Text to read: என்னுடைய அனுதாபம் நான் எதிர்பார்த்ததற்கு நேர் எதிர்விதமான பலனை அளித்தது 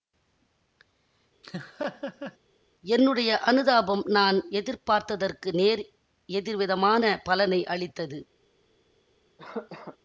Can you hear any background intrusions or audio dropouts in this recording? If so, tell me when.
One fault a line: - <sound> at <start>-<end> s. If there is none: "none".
- laugh at 1.4-2.4 s
- cough at 9.4-10.0 s